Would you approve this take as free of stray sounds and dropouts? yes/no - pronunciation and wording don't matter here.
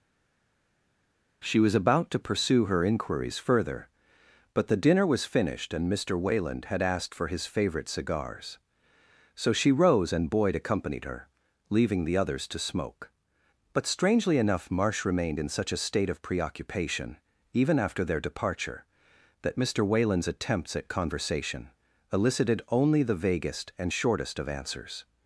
yes